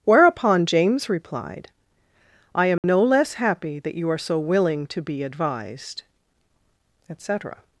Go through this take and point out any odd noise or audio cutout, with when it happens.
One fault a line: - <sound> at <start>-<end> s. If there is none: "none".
- dropout at 2.8-2.8 s